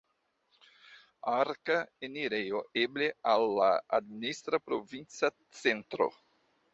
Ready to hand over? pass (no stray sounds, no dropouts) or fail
pass